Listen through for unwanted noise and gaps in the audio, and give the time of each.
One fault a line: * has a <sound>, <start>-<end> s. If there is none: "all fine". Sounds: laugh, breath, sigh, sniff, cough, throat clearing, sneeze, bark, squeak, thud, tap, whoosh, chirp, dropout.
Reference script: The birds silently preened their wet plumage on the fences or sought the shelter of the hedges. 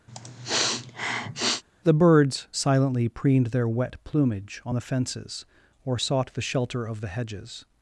* has a sniff, 0.1-1.6 s